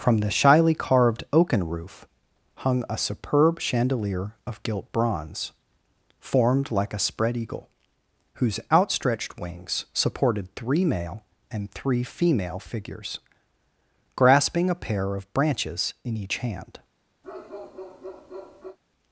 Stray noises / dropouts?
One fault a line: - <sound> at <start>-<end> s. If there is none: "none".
- bark at 17.2-18.8 s